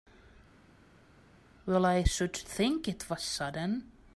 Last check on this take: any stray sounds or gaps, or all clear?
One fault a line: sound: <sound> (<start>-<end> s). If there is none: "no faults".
no faults